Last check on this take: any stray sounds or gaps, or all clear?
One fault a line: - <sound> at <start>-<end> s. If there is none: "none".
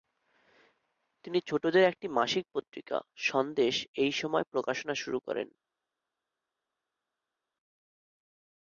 none